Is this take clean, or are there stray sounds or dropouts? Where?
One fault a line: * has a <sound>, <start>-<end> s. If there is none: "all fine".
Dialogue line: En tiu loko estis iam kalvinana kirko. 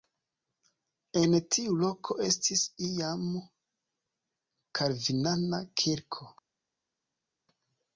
all fine